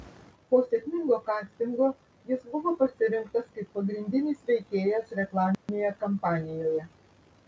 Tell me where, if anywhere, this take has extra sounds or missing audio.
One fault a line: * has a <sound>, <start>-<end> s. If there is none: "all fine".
* has a dropout, 5.5-5.7 s